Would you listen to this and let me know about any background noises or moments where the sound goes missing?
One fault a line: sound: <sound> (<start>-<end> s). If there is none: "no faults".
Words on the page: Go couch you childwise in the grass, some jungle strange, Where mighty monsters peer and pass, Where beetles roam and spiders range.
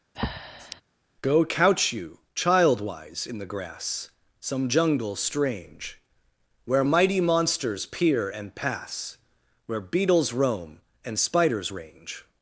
sound: breath (0.1-0.8 s)